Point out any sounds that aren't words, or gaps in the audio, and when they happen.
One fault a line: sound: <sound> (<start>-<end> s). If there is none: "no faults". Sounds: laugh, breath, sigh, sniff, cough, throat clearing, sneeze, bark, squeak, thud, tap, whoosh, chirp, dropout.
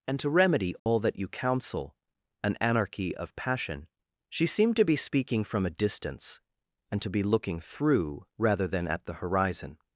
sound: dropout (0.8-0.9 s)